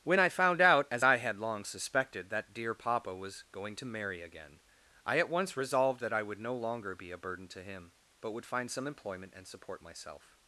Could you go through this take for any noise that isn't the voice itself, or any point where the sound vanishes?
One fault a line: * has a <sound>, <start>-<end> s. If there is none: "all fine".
all fine